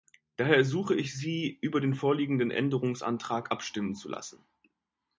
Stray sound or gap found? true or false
false